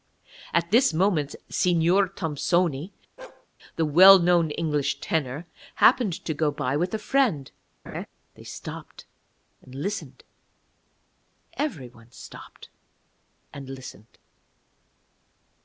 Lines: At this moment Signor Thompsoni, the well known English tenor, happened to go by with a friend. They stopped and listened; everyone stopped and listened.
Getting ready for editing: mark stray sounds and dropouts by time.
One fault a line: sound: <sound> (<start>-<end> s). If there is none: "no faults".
sound: bark (3.2-3.5 s)
sound: laugh (7.9-8.1 s)